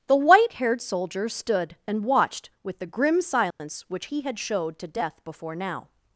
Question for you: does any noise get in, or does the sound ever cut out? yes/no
yes